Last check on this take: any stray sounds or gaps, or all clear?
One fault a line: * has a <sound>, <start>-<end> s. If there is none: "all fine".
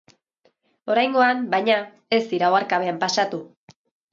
all fine